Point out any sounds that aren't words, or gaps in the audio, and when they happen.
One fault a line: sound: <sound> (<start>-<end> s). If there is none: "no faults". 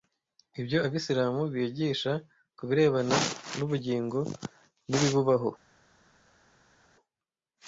no faults